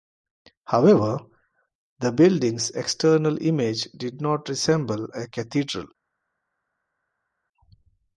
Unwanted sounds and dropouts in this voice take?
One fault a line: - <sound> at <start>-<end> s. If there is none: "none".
none